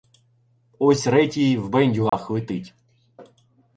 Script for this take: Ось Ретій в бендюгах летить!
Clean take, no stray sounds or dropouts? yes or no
no